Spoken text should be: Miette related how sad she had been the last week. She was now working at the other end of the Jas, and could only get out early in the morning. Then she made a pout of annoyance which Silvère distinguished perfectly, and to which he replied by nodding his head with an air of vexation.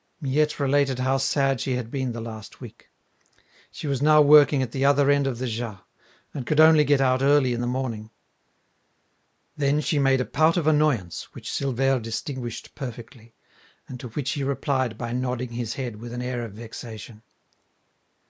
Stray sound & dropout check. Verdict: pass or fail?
pass